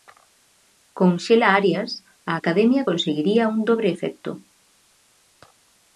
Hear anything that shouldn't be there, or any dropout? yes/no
no